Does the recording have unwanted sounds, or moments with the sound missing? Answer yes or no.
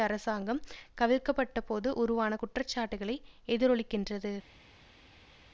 no